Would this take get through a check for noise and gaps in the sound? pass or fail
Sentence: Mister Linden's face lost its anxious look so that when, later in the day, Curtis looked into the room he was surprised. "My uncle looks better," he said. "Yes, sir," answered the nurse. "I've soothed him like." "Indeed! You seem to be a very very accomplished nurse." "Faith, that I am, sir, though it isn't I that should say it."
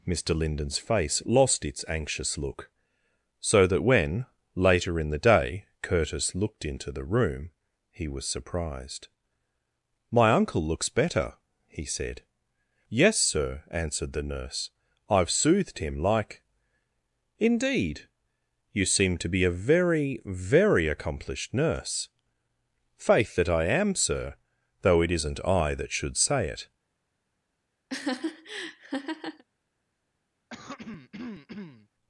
fail